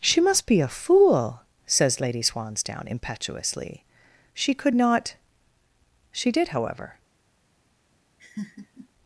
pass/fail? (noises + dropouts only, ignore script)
fail